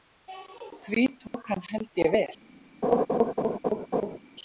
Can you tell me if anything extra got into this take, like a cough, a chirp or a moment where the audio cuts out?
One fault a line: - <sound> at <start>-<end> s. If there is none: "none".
- dropout at 1.3-1.3 s
- laugh at 2.8-4.2 s